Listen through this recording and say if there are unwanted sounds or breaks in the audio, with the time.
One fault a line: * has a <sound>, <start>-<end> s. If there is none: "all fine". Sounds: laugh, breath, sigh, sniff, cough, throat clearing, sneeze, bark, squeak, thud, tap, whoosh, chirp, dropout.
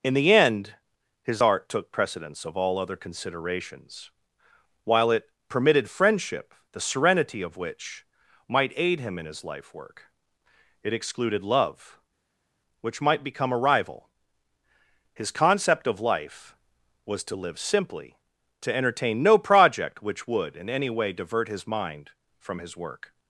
all fine